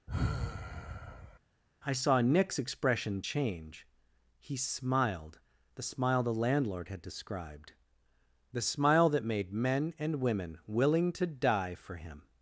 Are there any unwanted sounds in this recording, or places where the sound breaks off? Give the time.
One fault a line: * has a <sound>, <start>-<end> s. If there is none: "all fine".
* has a sigh, 0.1-1.4 s